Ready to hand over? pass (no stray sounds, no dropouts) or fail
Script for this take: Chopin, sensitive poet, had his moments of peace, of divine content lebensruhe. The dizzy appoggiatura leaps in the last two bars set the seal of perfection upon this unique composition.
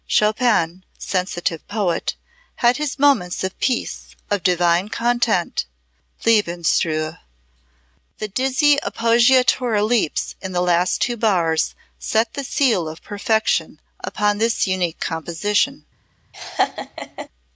fail